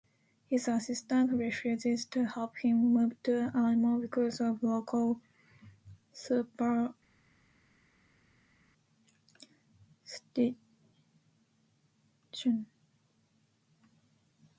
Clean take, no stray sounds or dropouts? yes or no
yes